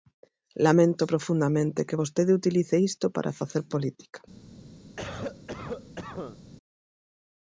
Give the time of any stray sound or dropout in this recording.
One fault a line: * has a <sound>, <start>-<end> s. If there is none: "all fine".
* has a cough, 5.0-6.4 s